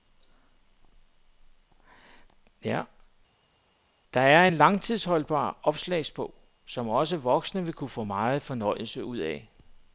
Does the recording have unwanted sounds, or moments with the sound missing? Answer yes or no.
no